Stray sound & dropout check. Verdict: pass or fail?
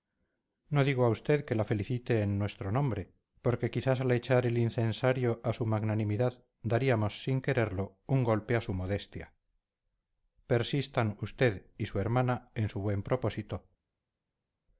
pass